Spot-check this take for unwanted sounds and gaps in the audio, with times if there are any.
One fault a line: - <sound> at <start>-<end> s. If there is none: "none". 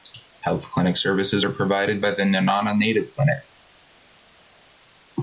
none